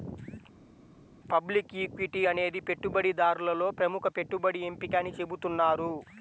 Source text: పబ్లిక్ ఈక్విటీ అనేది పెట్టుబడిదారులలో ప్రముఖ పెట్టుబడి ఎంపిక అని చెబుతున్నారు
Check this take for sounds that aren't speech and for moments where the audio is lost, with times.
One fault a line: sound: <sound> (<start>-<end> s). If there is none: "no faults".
no faults